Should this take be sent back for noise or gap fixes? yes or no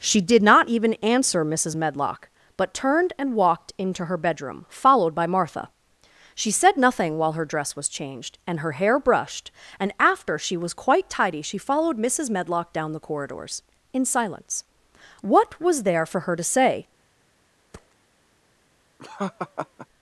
yes